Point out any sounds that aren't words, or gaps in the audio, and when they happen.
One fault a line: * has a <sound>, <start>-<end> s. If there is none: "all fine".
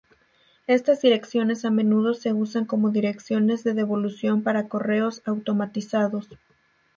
all fine